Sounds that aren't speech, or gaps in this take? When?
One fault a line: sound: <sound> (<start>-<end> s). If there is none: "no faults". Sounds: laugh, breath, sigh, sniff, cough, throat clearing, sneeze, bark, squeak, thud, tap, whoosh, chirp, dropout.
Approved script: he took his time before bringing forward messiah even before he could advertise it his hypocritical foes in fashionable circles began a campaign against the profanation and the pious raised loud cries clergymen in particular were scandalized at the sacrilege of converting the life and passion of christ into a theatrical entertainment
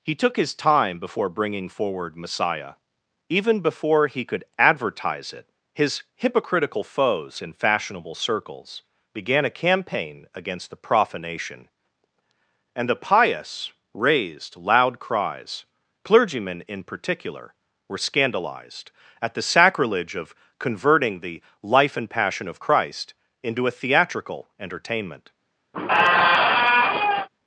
sound: squeak (25.7-27.3 s)